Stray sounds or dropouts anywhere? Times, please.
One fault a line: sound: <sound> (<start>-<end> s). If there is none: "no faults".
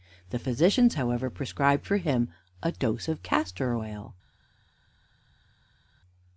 no faults